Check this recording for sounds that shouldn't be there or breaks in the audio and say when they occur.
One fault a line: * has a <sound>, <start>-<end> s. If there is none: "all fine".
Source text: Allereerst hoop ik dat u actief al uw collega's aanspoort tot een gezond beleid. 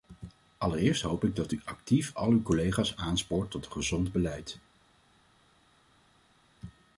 all fine